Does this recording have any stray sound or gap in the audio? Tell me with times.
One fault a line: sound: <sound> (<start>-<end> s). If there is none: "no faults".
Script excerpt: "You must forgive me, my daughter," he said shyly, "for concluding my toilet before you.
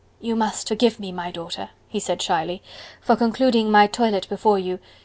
no faults